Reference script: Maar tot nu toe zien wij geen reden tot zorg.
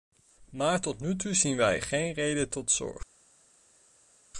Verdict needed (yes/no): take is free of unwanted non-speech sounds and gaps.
yes